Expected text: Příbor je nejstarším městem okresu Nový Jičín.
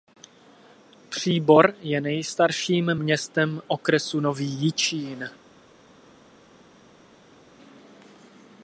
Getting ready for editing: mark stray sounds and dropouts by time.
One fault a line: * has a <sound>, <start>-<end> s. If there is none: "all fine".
all fine